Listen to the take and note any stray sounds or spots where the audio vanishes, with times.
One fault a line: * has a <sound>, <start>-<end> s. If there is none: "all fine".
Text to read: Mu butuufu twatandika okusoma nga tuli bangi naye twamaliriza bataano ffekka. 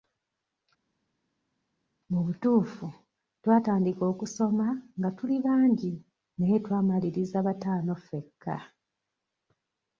all fine